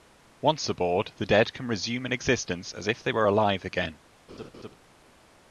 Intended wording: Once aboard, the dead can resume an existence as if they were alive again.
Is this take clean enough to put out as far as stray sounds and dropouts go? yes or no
no